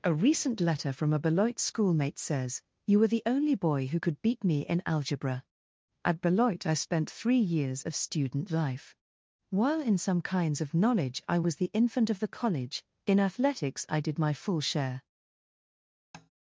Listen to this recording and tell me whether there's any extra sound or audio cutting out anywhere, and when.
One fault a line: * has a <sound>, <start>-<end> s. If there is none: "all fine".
* has a tap, 16.1-16.3 s